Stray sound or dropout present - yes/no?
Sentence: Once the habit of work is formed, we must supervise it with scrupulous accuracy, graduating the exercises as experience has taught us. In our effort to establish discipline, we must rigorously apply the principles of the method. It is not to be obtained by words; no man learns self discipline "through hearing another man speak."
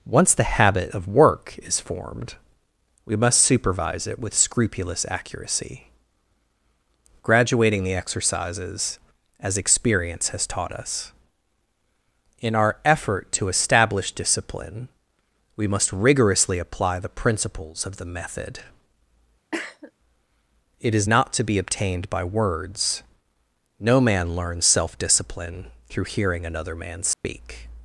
yes